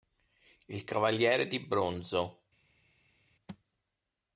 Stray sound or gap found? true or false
false